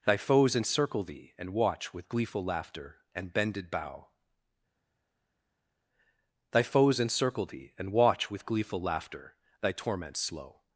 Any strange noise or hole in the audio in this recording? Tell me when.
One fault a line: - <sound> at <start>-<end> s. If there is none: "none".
none